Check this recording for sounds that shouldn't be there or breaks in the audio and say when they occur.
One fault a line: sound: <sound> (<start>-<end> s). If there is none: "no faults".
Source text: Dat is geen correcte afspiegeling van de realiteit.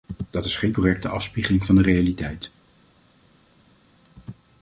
no faults